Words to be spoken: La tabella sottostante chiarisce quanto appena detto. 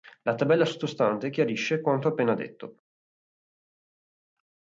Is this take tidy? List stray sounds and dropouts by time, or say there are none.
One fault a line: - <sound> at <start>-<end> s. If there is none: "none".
none